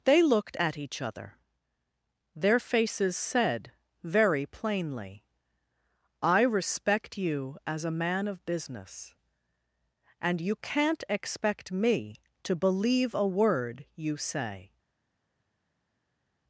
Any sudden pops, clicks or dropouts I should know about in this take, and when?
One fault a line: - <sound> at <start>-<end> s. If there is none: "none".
none